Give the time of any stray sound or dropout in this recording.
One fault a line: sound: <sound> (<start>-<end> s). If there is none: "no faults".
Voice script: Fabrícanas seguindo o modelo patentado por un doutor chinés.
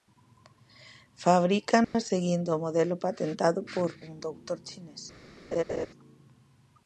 sound: dropout (1.8-1.9 s)
sound: laugh (5.5-5.9 s)